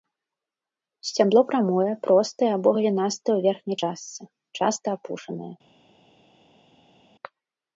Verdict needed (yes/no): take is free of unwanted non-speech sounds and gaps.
yes